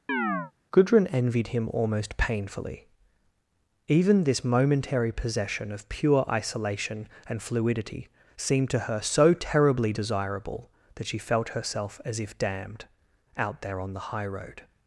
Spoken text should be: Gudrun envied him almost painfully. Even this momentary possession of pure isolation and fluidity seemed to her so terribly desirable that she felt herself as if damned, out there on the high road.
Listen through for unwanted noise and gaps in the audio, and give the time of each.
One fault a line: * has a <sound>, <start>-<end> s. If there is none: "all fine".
* has a chirp, 0.1-0.5 s